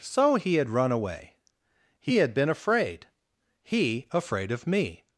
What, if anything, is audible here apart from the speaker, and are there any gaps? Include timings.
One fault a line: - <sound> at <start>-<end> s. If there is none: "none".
none